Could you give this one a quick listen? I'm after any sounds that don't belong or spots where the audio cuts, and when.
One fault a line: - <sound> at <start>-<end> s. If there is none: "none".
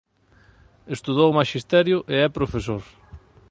none